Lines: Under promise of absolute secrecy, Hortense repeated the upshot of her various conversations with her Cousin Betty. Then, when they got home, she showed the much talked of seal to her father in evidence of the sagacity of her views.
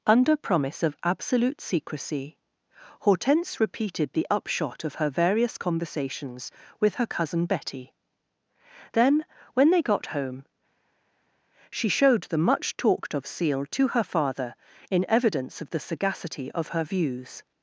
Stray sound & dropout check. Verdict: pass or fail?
pass